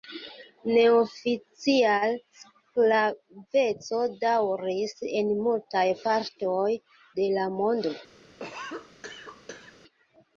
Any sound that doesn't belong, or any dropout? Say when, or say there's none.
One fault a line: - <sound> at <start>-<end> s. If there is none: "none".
- cough at 8.4-9.8 s